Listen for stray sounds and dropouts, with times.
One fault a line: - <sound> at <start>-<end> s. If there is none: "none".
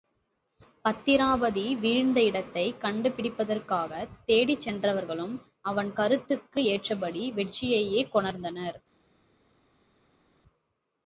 none